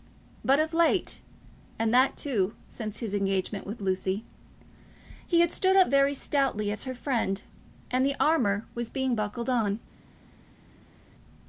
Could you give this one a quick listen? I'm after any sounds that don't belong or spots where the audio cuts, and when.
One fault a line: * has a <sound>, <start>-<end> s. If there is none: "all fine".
all fine